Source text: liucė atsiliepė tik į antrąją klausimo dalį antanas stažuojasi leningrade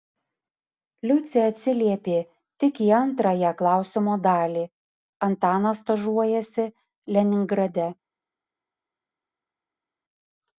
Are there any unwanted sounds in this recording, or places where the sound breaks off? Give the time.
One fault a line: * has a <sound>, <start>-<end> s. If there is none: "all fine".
all fine